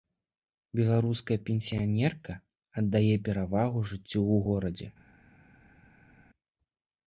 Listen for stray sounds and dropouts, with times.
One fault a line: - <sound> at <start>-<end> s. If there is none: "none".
none